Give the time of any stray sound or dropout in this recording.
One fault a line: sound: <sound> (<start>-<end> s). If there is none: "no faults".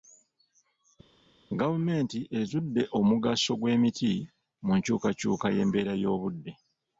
no faults